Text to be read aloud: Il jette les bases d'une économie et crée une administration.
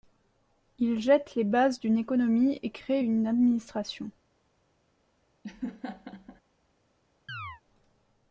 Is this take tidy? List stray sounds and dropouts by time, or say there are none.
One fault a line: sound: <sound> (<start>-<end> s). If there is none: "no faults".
sound: laugh (5.4-6.4 s)
sound: chirp (7.3-7.6 s)